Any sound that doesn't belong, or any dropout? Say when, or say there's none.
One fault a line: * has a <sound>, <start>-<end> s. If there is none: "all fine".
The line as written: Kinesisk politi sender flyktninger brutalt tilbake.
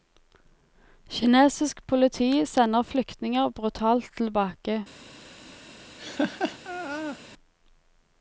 * has a laugh, 6.0-7.2 s